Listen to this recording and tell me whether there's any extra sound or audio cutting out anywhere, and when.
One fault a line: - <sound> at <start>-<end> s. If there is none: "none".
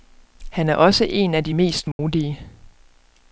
- dropout at 1.9-2.0 s